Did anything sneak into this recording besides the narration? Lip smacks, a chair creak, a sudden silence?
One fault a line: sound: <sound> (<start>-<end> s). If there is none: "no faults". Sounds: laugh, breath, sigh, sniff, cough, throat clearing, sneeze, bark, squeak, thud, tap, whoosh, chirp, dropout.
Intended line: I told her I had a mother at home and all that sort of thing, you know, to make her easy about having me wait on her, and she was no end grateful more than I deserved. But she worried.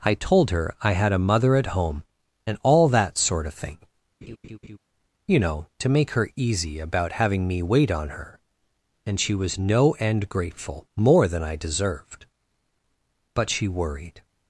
sound: laugh (4.2-4.8 s)